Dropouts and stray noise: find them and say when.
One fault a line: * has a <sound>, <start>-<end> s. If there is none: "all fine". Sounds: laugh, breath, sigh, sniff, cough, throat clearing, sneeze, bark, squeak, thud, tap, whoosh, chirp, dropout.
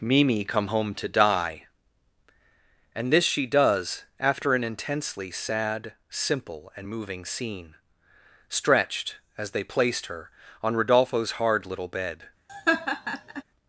* has a laugh, 12.5-13.4 s